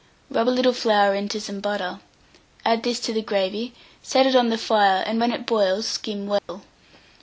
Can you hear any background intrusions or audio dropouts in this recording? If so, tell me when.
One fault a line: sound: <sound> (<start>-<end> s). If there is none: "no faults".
sound: dropout (6.4-6.5 s)